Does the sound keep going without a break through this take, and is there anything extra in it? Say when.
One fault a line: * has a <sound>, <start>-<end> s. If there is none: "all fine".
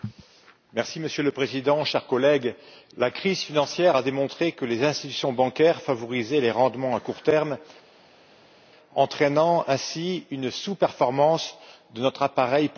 all fine